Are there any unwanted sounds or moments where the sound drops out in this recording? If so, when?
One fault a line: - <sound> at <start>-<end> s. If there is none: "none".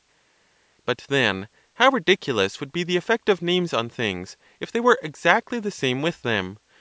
none